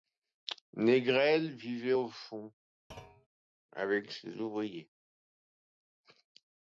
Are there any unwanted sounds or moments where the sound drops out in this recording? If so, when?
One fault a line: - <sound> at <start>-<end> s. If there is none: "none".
- thud at 2.9-3.3 s